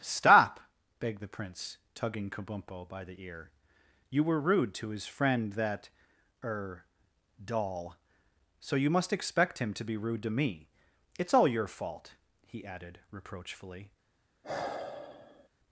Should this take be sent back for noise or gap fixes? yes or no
yes